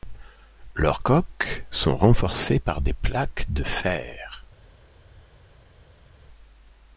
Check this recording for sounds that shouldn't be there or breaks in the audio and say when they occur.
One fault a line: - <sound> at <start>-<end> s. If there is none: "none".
none